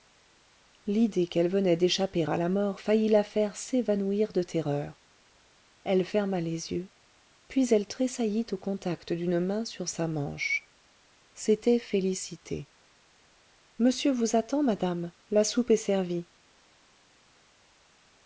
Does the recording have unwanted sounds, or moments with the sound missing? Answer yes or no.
no